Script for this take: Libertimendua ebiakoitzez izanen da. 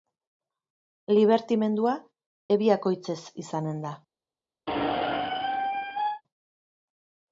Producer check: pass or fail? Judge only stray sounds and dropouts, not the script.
fail